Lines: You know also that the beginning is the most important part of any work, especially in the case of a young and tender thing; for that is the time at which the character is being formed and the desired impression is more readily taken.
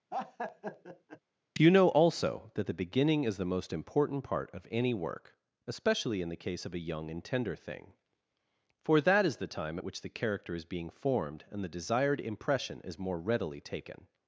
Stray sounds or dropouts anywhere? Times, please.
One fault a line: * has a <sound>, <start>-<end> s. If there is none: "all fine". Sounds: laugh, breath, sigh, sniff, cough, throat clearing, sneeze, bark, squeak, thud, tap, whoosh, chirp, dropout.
* has a laugh, 0.1-1.2 s